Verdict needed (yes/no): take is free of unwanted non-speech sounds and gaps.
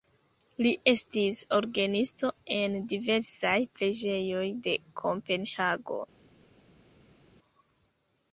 yes